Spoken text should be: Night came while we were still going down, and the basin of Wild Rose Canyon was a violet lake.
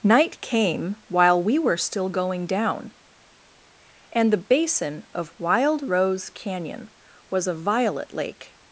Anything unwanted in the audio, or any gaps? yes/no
no